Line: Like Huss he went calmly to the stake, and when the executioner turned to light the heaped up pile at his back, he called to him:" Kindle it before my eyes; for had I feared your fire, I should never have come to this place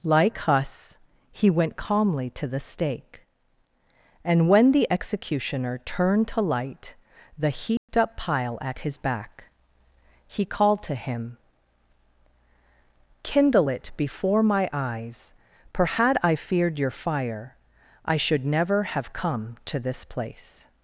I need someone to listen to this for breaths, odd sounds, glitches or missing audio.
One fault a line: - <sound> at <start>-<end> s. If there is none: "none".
- dropout at 7.8-7.9 s